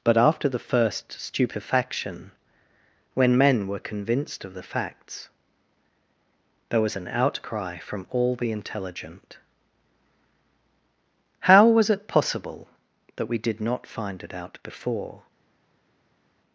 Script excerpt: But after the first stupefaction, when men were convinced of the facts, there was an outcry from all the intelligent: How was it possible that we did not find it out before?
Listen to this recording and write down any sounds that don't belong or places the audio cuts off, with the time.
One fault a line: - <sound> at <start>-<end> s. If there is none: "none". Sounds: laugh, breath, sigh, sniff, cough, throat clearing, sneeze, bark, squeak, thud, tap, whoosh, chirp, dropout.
none